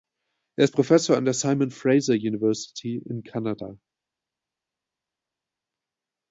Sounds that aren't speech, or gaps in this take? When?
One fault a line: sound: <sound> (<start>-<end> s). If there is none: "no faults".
no faults